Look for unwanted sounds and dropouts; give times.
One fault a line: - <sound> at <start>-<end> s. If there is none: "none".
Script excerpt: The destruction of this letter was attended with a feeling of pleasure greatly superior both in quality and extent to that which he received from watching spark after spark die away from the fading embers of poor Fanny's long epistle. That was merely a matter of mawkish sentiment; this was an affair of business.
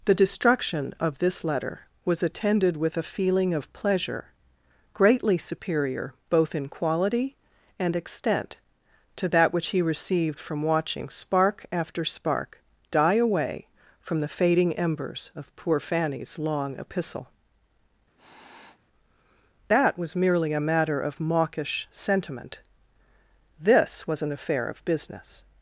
- sniff at 18.2-18.8 s